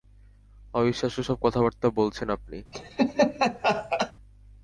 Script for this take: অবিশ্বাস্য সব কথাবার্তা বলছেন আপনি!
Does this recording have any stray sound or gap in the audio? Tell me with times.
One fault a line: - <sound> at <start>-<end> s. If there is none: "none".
- laugh at 2.7-4.1 s